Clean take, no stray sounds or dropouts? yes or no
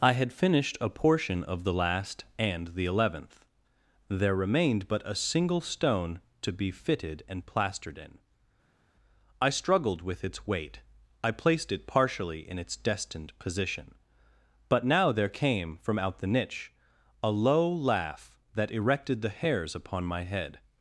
yes